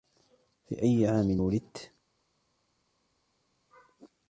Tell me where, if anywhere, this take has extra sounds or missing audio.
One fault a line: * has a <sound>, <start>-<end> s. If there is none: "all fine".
all fine